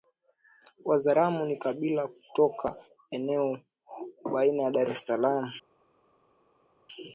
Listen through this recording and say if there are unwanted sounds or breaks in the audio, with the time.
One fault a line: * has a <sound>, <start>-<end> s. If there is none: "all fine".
all fine